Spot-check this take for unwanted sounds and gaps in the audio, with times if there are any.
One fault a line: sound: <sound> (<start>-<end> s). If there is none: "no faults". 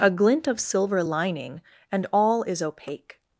no faults